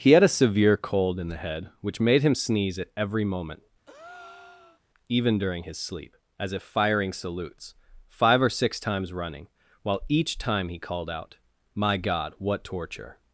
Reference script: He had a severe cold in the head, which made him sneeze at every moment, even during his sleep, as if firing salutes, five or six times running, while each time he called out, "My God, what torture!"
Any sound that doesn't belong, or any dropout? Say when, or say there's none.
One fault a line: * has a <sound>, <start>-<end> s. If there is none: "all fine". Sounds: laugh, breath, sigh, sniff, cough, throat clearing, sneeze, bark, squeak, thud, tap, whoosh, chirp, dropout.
* has a breath, 3.9-4.8 s